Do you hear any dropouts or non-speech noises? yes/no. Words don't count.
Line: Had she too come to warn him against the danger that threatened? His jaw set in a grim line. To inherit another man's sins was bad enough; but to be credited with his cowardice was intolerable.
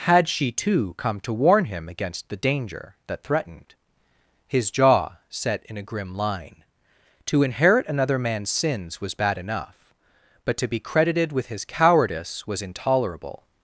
no